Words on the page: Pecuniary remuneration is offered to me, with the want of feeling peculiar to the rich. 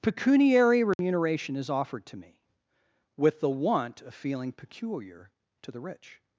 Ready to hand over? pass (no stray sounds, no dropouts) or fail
fail